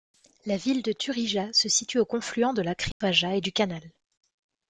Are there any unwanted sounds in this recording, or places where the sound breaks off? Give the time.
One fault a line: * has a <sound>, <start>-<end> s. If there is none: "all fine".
* has a dropout, 2.9-3.0 s